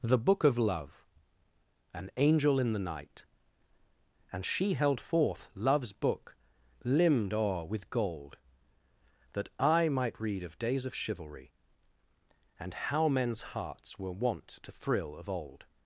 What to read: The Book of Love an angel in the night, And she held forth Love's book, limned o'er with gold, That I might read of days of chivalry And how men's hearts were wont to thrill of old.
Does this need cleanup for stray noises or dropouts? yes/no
no